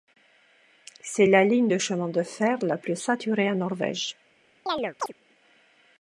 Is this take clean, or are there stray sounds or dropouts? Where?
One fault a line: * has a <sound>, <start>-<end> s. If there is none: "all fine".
* has a chirp, 4.7-5.1 s